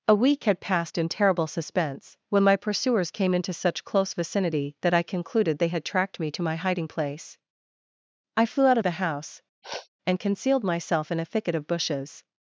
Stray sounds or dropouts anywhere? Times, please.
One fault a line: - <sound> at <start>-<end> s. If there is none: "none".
- sniff at 9.6-9.9 s